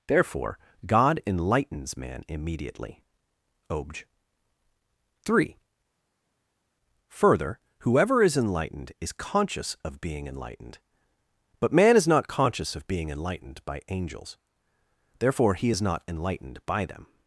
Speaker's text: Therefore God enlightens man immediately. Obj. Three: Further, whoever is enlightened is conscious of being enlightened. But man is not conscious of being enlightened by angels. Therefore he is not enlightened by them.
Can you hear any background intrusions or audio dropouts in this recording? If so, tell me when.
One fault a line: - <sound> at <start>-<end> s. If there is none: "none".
none